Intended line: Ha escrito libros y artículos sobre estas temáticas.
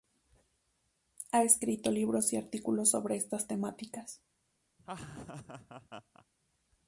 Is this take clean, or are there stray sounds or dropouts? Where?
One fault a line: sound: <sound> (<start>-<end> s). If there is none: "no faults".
sound: laugh (4.8-6.2 s)